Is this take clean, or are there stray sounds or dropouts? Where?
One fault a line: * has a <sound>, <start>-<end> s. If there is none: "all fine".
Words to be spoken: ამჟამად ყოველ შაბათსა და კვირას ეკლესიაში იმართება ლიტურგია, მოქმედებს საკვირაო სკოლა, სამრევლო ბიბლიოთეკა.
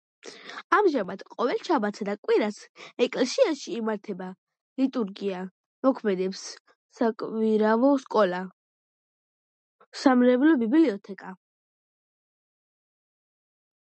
all fine